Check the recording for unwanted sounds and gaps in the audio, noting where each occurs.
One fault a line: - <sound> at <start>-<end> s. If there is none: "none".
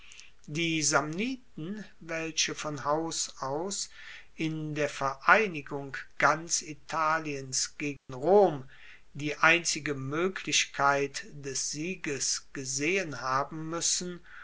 - dropout at 8.0-8.1 s